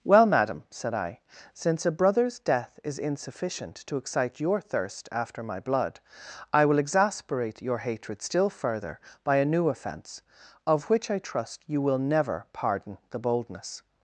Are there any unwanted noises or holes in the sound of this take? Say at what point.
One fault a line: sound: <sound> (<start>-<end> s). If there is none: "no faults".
no faults